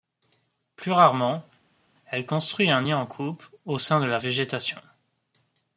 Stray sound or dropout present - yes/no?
no